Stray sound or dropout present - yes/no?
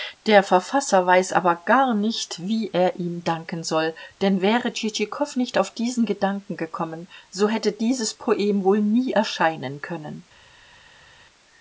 no